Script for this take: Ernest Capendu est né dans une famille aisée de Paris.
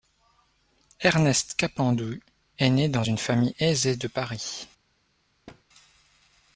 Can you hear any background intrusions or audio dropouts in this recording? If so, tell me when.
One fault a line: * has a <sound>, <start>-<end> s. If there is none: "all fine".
* has a thud, 5.5-5.6 s